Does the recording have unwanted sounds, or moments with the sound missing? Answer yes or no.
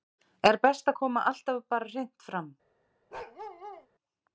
yes